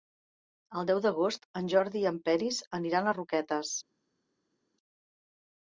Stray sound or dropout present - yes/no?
no